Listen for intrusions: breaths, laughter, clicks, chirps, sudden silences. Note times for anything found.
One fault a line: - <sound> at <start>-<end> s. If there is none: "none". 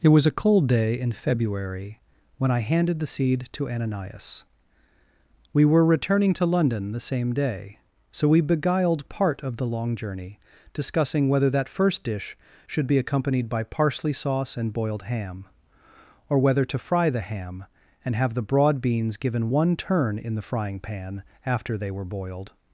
none